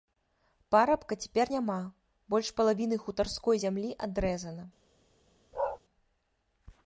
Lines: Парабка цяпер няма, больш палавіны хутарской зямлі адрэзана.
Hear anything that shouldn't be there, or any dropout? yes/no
yes